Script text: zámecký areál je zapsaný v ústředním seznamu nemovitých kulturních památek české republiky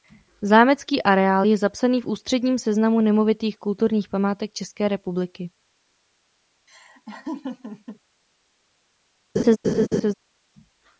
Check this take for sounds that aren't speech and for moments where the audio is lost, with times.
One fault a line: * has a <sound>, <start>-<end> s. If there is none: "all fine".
* has a laugh, 6.7-8.0 s
* has a laugh, 9.4-10.1 s